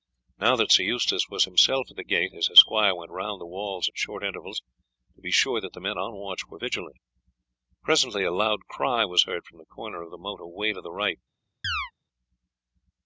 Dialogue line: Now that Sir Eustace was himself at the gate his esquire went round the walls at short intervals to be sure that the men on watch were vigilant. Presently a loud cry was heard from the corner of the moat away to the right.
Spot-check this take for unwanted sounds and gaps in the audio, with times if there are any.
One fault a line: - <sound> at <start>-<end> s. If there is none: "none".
- chirp at 11.6-11.9 s